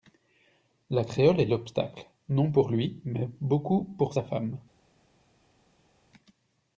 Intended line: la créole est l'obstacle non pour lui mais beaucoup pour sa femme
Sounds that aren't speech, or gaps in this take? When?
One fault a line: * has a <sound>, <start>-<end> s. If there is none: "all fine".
all fine